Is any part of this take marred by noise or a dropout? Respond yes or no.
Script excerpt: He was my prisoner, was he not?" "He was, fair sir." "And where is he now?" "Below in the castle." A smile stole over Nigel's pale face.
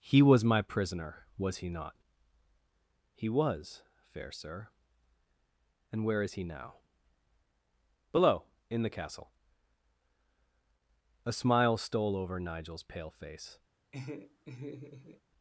yes